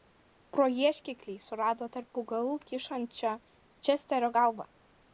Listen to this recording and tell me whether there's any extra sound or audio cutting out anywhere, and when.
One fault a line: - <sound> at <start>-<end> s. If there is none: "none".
none